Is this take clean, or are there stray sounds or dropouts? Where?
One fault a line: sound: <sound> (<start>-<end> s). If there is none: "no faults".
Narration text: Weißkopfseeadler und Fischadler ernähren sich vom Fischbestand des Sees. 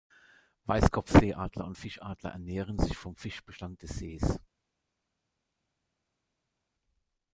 no faults